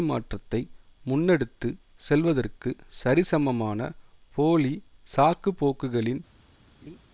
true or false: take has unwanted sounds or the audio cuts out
true